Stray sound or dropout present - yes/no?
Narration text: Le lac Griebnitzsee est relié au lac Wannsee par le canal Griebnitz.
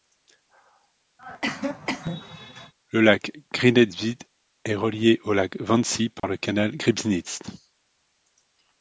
yes